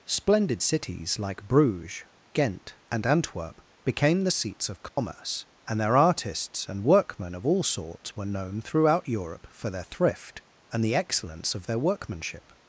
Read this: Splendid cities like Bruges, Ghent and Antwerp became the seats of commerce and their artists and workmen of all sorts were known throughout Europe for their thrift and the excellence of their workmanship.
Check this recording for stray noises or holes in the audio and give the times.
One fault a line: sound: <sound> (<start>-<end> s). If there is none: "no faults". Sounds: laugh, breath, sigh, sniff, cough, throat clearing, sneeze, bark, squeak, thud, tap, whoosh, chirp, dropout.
sound: dropout (4.9-5.0 s)